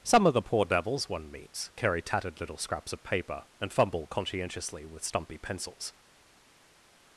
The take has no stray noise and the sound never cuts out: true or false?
true